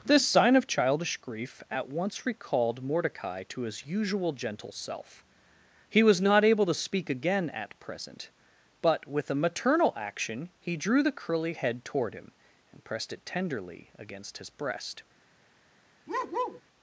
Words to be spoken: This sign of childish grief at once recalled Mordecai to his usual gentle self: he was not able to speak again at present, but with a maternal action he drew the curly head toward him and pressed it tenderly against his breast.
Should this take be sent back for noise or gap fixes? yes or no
yes